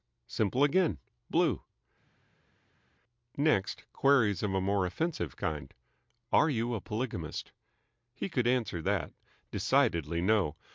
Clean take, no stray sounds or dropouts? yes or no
yes